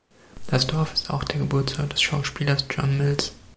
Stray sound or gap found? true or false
false